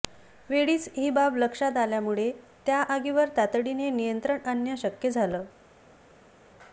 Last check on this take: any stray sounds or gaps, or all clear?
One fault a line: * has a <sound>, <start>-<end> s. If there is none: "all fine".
all fine